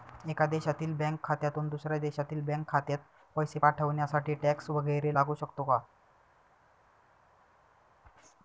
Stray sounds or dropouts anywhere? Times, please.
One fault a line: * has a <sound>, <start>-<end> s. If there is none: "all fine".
all fine